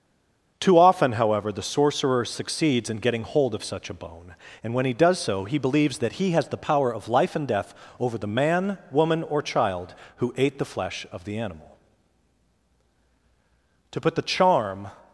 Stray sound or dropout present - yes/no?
no